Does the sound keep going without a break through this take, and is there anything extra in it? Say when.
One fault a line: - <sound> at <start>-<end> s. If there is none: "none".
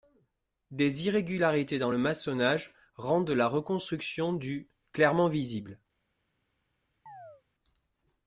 - chirp at 7.1-7.4 s